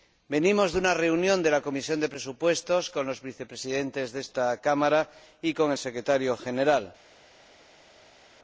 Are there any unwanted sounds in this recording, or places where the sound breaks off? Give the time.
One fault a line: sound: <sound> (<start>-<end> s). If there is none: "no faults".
no faults